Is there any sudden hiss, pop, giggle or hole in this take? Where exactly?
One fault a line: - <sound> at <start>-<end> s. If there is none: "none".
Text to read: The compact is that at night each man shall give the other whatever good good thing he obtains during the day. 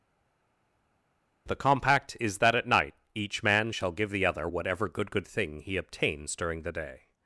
none